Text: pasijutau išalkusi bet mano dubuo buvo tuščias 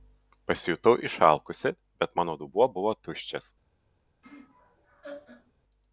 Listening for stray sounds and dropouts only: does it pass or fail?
fail